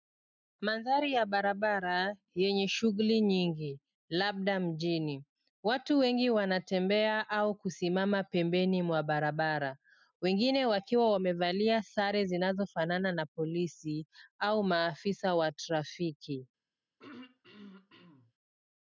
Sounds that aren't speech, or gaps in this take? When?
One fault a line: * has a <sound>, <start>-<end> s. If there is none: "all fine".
* has a throat clearing, 17.0-18.3 s